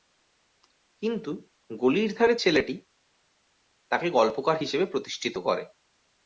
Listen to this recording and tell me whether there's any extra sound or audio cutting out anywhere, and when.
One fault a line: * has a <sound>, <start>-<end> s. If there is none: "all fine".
all fine